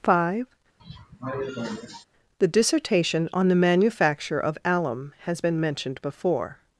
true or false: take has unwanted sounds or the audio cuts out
true